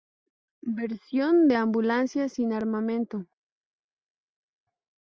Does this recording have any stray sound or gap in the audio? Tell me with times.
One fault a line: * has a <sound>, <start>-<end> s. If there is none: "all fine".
all fine